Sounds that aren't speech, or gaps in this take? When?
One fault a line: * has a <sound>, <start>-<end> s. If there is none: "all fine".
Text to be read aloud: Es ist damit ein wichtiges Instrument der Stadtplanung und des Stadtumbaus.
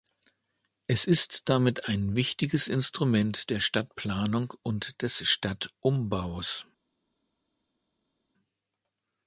all fine